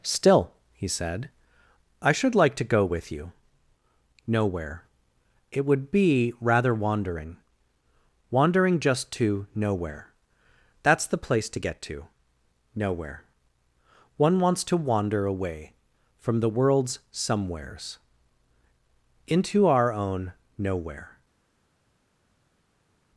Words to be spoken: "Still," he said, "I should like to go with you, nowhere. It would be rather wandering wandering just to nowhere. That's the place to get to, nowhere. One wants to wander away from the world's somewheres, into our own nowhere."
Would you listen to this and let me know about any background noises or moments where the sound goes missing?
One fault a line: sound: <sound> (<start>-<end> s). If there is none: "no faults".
no faults